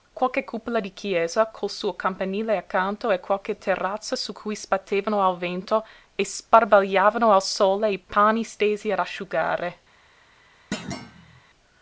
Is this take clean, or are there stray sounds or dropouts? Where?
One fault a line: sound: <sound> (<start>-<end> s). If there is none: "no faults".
sound: thud (10.7-11.4 s)